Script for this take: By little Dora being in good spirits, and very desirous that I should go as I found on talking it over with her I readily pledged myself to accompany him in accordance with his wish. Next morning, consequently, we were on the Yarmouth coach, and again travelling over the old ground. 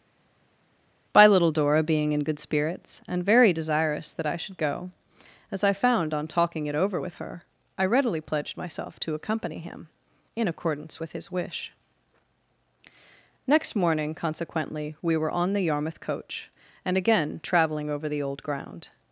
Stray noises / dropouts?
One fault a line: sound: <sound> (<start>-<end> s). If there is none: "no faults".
no faults